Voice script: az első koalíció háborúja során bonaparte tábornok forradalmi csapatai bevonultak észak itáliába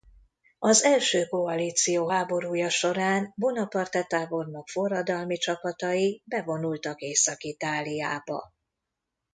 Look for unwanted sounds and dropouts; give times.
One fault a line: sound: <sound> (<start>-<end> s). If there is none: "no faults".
no faults